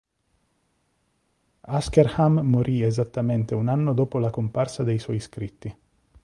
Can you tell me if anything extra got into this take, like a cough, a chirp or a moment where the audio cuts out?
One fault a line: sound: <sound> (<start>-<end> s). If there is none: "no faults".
no faults